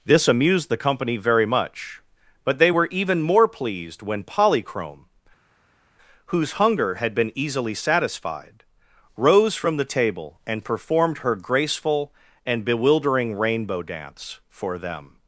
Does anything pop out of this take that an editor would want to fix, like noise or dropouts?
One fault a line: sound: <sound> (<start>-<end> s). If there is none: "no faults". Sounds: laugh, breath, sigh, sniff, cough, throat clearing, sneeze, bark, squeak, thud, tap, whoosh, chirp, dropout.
no faults